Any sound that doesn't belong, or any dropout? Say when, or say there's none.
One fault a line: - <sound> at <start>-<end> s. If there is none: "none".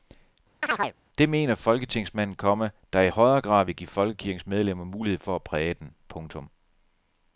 - chirp at 0.6-0.9 s